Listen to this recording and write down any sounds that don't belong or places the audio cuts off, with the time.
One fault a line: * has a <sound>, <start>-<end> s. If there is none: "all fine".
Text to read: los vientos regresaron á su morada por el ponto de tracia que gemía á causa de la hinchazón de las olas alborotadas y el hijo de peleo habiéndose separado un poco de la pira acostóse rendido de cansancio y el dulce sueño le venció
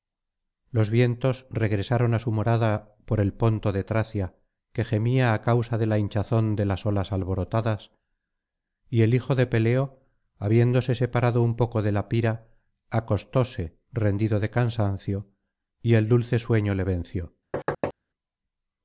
* has a thud, 17.5-17.9 s